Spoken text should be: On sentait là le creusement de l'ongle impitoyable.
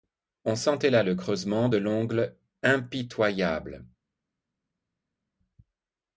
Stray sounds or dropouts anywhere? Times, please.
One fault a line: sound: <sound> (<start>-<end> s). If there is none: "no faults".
no faults